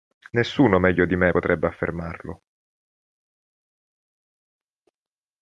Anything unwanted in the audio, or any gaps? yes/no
no